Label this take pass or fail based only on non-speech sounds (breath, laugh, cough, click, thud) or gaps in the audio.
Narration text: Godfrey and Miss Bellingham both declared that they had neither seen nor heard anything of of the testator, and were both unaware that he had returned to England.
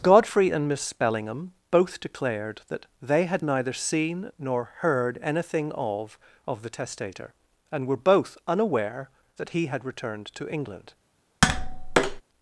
fail